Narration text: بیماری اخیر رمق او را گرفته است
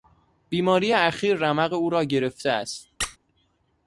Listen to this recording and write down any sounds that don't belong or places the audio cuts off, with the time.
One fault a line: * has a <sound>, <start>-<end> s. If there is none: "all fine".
* has a squeak, 3.0-3.2 s